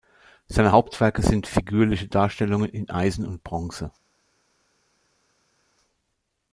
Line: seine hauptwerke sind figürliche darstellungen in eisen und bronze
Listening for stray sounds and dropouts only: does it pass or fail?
pass